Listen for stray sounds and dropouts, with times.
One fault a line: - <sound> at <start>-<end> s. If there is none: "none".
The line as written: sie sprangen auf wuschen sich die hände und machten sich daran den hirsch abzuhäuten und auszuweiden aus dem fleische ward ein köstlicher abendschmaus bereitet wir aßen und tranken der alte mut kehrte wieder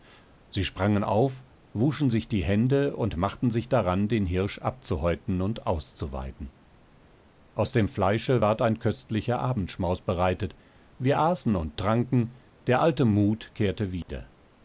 - dropout at 14.0-14.1 s